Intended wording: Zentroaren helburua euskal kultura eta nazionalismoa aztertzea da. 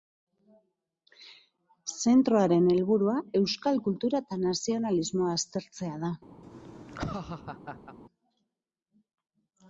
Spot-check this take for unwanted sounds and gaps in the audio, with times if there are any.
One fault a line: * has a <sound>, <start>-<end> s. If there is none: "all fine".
* has a laugh, 6.4-8.0 s